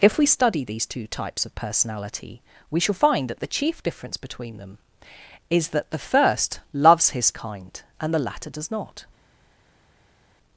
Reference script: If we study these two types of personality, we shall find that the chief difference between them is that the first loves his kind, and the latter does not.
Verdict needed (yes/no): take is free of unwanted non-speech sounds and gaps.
yes